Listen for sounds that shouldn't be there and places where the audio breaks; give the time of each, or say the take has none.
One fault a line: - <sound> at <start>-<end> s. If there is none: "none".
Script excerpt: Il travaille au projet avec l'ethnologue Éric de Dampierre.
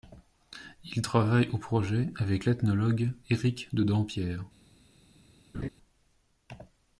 - laugh at 5.5-5.7 s